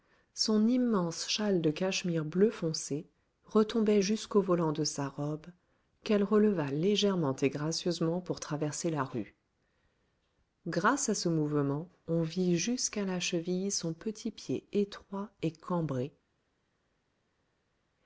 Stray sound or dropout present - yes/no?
no